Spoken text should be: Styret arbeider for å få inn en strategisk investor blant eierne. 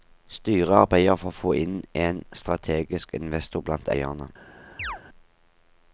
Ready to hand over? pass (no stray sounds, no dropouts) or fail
fail